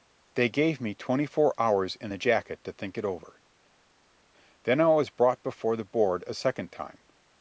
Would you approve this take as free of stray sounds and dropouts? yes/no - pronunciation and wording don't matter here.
yes